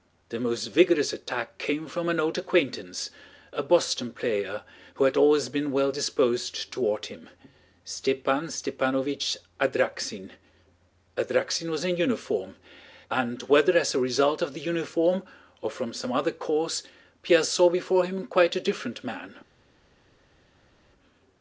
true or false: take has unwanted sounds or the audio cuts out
false